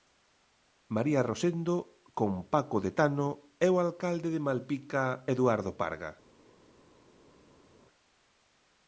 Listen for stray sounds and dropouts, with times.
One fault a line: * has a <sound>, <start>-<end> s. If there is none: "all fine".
all fine